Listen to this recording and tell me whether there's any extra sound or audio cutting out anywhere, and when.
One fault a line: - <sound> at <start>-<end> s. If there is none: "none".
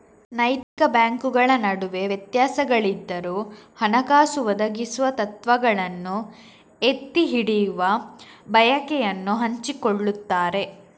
- dropout at 0.6-0.8 s